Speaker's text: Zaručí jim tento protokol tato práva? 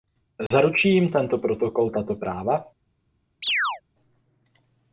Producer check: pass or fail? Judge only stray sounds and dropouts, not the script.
fail